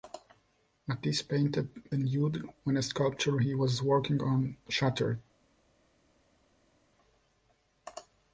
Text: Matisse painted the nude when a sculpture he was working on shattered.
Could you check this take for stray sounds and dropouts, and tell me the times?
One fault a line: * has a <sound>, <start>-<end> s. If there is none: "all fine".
all fine